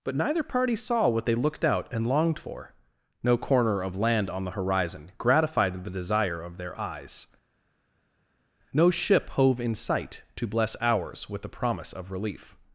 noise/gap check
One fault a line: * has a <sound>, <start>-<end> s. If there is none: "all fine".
all fine